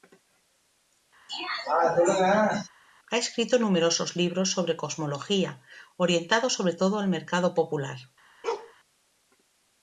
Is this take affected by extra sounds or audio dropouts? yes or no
yes